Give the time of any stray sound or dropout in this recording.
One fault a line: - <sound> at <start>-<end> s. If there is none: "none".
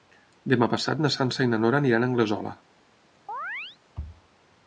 - chirp at 3.3-3.8 s